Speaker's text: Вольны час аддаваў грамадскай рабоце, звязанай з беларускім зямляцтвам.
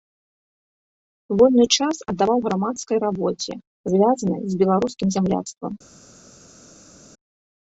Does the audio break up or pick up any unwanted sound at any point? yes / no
no